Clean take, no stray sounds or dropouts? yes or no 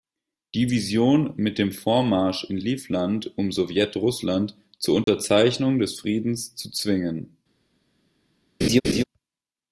no